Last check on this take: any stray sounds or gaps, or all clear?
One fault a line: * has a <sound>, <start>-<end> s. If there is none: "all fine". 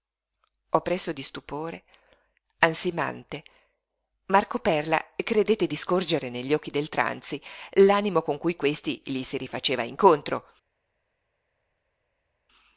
all fine